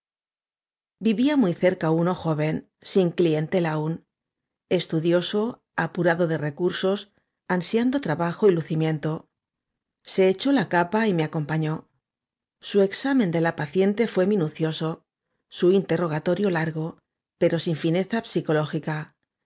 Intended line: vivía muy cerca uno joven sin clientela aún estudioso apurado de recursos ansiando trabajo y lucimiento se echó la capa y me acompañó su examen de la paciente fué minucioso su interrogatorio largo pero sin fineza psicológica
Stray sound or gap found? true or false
false